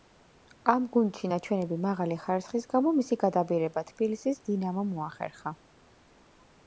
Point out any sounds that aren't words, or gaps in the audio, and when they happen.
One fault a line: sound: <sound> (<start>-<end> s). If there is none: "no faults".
no faults